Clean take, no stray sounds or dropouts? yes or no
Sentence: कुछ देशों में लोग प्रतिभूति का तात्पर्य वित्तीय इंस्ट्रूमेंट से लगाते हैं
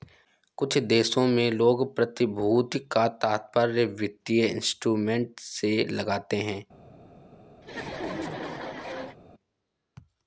no